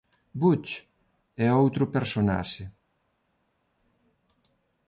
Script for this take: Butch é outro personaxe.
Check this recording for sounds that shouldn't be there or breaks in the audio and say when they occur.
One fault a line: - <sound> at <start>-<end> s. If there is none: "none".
none